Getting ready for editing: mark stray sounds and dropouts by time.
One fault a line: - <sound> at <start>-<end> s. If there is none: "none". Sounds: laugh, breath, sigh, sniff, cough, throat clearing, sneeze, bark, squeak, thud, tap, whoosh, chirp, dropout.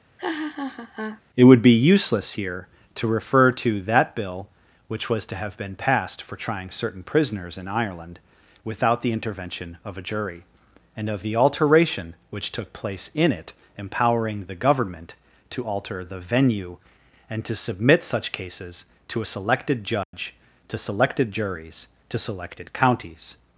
- laugh at 0.2-1.2 s
- dropout at 20.0-20.1 s